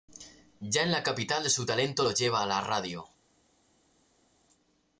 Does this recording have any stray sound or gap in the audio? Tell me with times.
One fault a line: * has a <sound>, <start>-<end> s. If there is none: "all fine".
all fine